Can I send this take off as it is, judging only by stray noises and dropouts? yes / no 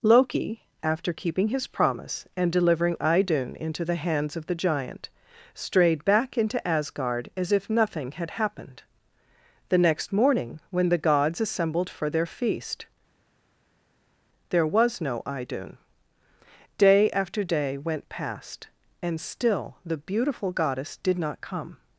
yes